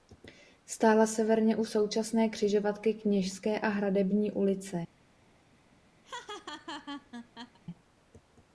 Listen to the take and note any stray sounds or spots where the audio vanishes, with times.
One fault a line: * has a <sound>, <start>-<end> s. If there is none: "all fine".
* has a laugh, 6.0-7.6 s